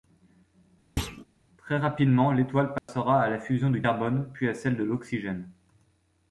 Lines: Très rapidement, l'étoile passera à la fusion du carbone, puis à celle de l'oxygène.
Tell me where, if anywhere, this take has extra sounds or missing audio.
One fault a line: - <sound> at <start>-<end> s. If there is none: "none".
- thud at 1.0-1.2 s
- dropout at 2.8-2.9 s